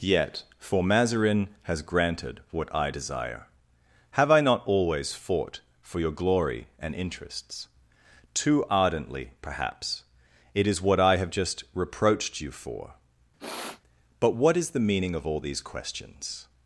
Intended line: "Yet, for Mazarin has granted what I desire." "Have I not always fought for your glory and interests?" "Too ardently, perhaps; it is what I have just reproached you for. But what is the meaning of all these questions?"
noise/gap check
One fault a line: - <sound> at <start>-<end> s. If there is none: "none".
- sniff at 13.4-13.8 s